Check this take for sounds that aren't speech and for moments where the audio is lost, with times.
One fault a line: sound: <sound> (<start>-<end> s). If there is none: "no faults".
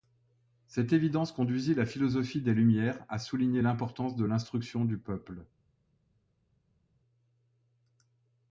no faults